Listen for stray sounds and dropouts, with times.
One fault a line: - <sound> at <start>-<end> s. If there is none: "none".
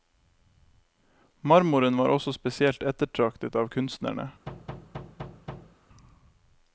- thud at 4.5-5.8 s